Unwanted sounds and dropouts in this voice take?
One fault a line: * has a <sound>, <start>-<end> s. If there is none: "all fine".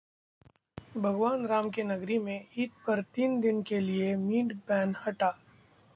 all fine